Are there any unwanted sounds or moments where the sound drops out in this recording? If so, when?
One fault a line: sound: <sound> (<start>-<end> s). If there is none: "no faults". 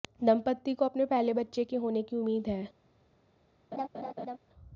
sound: laugh (3.7-4.4 s)